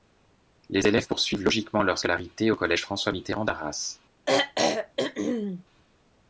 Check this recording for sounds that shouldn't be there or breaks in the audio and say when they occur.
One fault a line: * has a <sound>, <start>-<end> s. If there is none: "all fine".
* has a throat clearing, 4.3-5.6 s